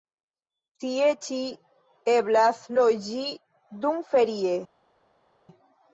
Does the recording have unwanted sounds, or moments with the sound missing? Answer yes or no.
no